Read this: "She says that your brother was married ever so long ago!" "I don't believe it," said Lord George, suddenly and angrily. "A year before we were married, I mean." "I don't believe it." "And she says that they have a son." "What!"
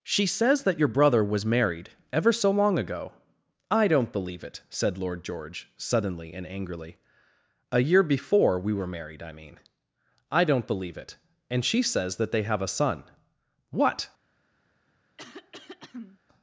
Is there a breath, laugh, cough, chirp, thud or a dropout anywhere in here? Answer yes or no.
yes